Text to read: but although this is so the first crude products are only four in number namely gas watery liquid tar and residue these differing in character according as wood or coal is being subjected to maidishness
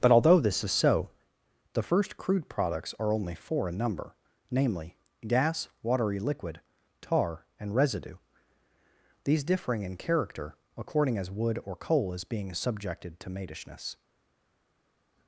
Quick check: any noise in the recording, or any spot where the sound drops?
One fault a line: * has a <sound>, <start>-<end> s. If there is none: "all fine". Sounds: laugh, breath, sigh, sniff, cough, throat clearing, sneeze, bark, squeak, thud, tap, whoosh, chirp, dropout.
all fine